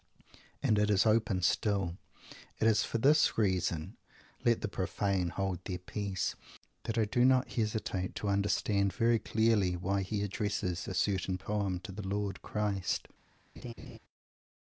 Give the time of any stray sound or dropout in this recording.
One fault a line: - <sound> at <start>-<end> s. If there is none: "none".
- laugh at 13.6-14.0 s